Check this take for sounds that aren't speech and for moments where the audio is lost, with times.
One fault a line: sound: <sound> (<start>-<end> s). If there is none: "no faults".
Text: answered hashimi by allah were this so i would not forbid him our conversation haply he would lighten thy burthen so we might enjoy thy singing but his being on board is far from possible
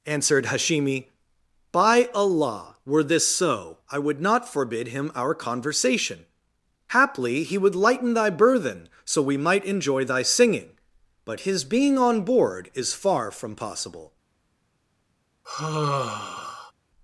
sound: sigh (15.4-16.7 s)